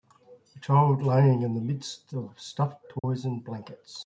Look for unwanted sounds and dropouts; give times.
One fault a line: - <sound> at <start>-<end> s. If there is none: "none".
- dropout at 3.0-3.0 s